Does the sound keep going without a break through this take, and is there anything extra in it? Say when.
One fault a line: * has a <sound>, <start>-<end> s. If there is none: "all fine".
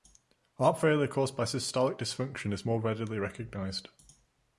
all fine